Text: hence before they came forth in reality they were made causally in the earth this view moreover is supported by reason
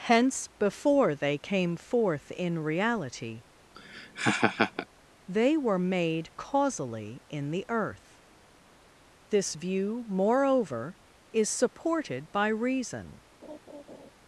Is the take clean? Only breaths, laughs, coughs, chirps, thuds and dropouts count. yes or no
no